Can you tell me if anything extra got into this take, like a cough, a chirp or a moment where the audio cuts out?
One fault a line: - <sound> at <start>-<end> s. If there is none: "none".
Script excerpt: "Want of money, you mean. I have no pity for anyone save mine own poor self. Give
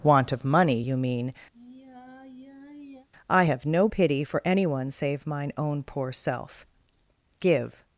- sigh at 1.5-3.1 s